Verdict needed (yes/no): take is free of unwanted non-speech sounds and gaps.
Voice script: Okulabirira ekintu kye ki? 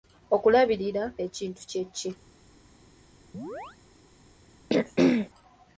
no